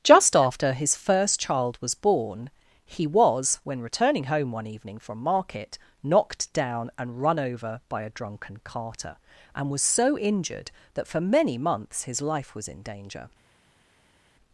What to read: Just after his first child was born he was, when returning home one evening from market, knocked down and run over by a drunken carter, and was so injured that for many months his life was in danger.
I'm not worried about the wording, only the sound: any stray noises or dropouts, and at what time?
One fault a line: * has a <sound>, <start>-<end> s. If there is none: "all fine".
all fine